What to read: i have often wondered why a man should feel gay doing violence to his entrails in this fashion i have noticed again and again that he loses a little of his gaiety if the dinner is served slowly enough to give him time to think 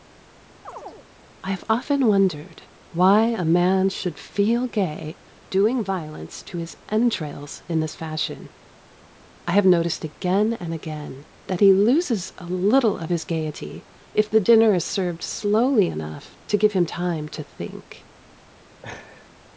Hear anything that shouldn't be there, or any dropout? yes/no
yes